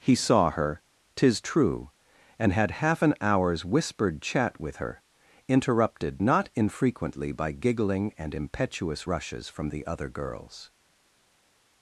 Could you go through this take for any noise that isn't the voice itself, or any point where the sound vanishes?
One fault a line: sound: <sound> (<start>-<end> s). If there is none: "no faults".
no faults